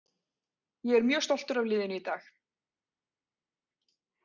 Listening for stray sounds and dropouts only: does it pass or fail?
pass